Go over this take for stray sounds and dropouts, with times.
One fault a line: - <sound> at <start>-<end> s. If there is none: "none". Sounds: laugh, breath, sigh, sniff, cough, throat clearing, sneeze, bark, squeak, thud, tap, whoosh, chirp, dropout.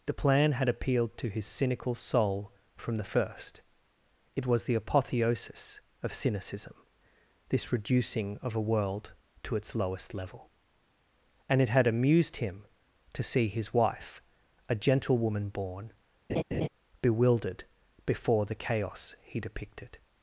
- laugh at 16.3-16.7 s